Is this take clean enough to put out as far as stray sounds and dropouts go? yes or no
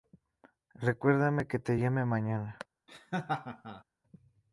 no